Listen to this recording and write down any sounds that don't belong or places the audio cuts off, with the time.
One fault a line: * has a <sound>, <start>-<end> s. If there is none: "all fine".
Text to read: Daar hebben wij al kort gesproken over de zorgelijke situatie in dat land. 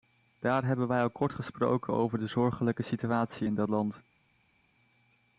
all fine